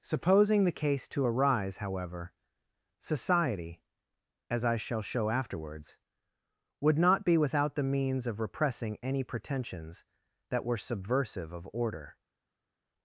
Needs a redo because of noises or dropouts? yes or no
no